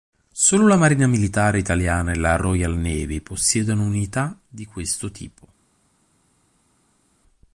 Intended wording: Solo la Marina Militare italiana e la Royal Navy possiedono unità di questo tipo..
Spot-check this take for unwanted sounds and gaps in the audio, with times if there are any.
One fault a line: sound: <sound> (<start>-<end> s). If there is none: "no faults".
no faults